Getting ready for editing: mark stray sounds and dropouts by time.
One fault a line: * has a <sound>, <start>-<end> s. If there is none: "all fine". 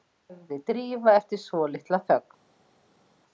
all fine